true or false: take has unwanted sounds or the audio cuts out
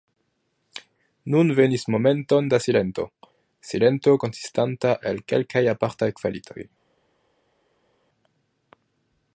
false